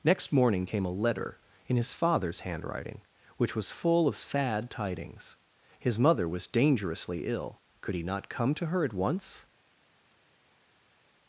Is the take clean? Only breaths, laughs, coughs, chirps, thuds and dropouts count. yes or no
yes